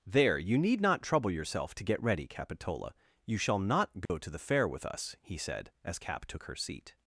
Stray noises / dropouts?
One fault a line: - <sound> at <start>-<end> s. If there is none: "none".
- dropout at 4.1-4.1 s